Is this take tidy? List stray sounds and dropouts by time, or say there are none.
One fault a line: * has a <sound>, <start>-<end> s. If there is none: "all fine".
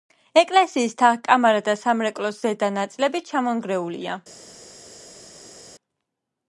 all fine